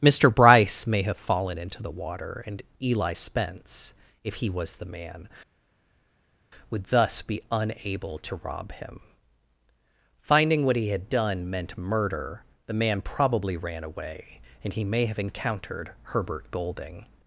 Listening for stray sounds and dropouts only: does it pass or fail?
pass